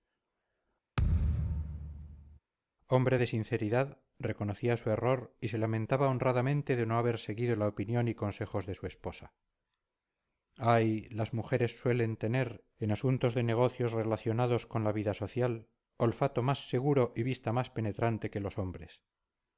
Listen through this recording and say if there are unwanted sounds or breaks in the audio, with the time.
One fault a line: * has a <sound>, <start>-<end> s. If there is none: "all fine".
* has a thud, 1.0-2.4 s